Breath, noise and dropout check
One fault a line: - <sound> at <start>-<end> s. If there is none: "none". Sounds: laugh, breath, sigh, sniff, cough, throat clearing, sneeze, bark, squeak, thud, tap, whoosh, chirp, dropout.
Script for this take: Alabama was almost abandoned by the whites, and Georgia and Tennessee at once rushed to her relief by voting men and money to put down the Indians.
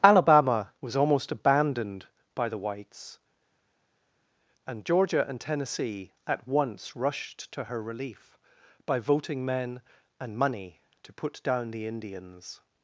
none